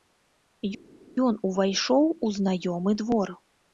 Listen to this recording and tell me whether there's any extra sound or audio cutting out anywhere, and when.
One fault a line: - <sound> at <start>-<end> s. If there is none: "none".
none